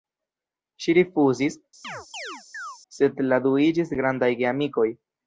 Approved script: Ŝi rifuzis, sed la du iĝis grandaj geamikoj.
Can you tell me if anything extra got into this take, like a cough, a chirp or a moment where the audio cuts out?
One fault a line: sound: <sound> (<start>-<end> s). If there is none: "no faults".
sound: chirp (1.8-2.8 s)